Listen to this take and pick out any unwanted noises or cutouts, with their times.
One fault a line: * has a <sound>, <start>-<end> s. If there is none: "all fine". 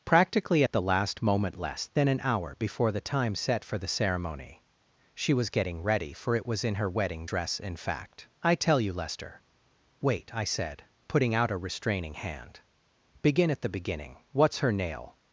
all fine